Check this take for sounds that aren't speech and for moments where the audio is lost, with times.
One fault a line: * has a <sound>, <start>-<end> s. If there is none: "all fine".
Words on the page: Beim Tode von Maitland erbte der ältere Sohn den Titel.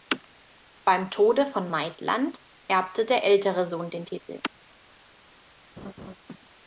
* has a laugh, 5.8-6.2 s